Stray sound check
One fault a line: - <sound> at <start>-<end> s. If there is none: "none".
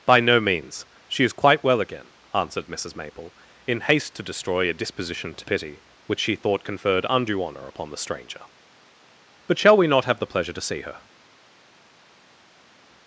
none